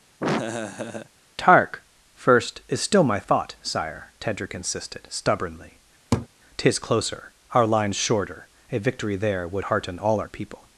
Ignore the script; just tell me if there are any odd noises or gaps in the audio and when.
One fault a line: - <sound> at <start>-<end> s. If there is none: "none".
- laugh at 0.2-1.1 s
- laugh at 6.1-6.3 s